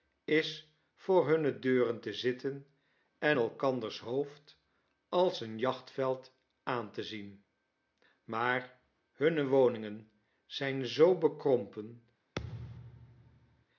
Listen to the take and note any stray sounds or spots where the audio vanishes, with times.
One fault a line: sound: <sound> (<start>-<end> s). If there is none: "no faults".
sound: thud (12.4-13.7 s)